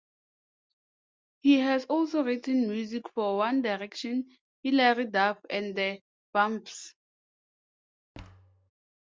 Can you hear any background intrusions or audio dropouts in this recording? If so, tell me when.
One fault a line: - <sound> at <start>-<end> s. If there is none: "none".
- thud at 8.1-8.7 s